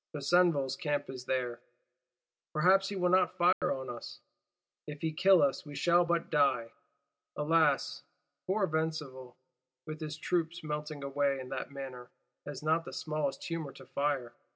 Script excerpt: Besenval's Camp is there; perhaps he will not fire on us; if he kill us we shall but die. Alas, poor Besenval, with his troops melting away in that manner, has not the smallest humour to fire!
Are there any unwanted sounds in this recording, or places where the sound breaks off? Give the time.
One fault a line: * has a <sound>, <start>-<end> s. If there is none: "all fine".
* has a dropout, 3.5-3.6 s